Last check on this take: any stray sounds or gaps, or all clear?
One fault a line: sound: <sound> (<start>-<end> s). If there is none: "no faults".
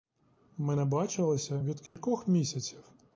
sound: dropout (1.9-2.0 s)